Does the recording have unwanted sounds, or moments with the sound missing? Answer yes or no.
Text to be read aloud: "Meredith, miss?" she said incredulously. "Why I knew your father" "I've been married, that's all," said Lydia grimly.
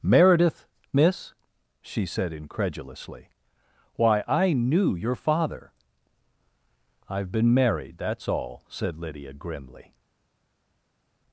no